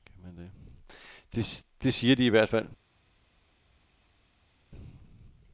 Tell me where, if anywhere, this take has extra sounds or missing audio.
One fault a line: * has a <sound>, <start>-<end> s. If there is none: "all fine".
all fine